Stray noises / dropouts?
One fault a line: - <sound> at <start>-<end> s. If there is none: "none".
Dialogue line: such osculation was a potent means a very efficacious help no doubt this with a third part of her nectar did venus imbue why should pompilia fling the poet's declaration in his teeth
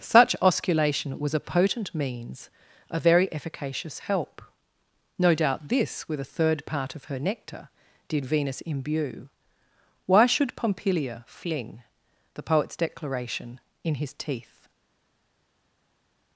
none